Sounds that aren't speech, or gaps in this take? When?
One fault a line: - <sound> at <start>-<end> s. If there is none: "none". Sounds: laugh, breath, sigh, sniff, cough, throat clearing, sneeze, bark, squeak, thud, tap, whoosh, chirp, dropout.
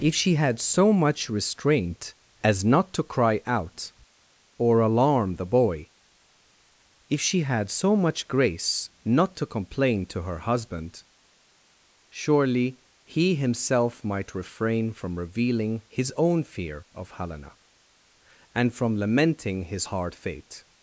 none